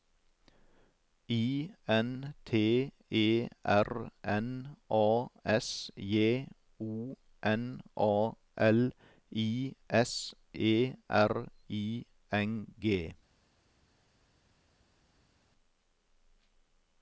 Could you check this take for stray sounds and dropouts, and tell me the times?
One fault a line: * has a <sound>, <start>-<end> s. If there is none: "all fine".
all fine